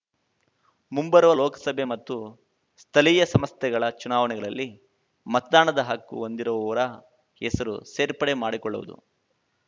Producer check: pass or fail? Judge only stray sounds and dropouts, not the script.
pass